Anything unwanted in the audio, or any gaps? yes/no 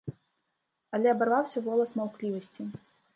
no